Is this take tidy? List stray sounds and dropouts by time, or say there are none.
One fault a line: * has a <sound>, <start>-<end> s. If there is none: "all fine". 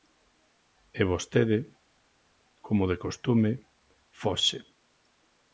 all fine